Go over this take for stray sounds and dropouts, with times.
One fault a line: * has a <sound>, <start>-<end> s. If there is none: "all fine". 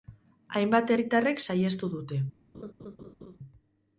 * has a laugh, 2.5-3.4 s